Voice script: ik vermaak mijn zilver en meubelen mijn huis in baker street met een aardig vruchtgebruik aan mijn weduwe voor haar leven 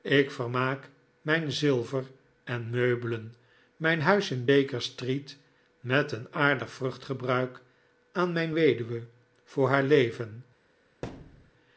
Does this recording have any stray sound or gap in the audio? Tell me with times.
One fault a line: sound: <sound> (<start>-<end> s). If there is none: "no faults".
sound: thud (11.0-11.5 s)